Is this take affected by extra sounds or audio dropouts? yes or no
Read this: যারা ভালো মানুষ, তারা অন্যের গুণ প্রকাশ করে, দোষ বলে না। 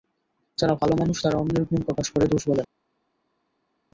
no